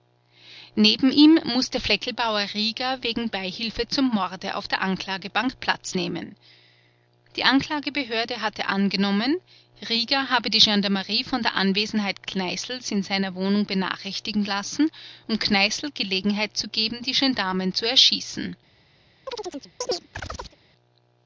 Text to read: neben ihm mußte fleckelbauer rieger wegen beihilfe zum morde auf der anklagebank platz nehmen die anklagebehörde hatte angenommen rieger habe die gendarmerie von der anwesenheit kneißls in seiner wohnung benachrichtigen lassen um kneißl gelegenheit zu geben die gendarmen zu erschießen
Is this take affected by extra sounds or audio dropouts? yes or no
yes